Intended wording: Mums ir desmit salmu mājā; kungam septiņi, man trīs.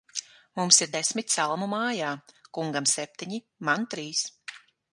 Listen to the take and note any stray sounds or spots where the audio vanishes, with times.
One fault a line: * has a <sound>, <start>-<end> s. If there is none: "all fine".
all fine